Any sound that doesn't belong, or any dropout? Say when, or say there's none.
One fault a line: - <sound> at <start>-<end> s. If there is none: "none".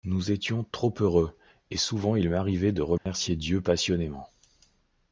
- dropout at 3.0-3.1 s